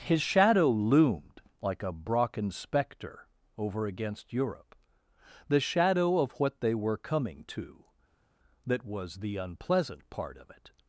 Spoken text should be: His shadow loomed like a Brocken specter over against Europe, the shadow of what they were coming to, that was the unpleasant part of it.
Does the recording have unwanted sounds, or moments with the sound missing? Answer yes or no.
no